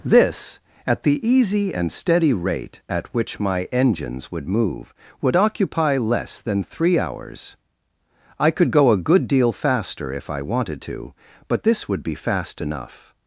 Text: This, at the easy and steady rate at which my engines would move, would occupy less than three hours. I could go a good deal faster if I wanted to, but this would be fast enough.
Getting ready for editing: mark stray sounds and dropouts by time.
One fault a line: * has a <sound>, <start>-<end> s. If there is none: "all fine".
all fine